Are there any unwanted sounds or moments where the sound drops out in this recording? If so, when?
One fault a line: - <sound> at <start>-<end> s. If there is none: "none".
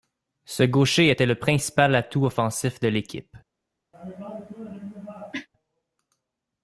- cough at 3.9-5.5 s